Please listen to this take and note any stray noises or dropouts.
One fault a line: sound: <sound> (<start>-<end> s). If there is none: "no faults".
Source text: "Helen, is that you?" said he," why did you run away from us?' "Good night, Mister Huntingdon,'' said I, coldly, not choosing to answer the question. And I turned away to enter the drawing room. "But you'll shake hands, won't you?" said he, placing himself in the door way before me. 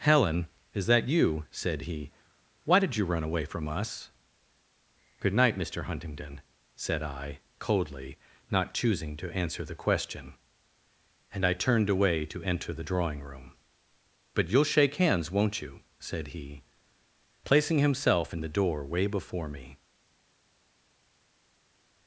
no faults